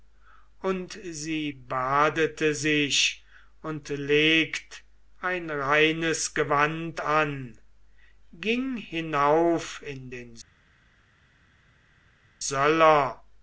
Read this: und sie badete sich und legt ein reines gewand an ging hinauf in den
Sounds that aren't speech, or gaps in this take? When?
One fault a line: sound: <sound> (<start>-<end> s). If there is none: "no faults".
no faults